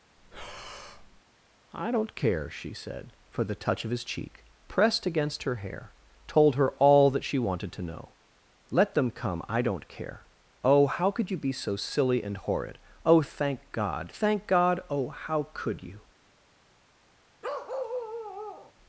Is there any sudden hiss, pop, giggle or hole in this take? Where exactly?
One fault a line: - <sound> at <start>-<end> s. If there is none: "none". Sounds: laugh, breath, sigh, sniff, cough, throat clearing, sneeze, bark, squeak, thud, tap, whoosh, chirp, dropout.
- breath at 0.2-1.2 s
- bark at 17.4-18.7 s